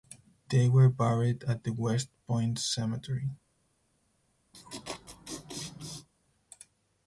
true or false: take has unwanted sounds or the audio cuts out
true